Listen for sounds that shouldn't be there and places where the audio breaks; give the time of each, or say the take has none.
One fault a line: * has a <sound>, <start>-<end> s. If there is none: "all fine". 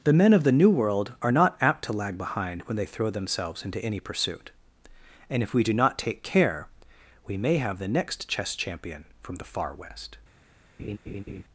* has a laugh, 10.8-11.4 s